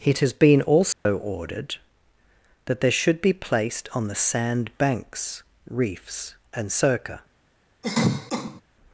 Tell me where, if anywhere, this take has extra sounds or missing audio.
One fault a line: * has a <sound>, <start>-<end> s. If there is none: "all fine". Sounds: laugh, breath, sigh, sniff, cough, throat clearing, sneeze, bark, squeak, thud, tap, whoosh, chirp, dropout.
* has a dropout, 0.9-1.1 s
* has a cough, 7.8-8.6 s